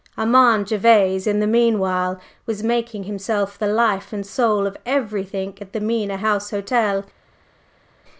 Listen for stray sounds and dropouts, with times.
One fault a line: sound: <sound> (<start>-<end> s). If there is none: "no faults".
no faults